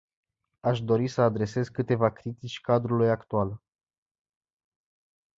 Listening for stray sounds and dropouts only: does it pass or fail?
pass